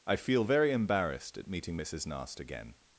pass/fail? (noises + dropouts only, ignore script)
pass